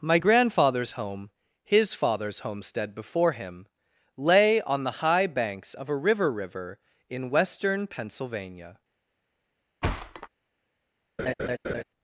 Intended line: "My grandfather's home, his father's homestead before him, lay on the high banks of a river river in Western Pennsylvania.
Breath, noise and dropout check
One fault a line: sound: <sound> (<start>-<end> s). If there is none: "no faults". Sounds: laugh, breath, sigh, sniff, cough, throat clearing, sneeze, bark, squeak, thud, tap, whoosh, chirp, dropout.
sound: thud (9.8-10.3 s)
sound: laugh (11.2-11.8 s)